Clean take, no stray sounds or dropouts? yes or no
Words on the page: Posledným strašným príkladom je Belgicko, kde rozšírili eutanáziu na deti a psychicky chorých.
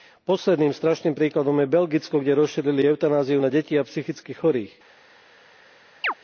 no